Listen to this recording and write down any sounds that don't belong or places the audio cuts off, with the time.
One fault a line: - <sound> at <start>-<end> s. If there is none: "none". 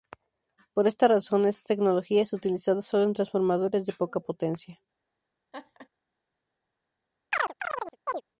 - laugh at 5.5-5.9 s
- chirp at 7.3-8.2 s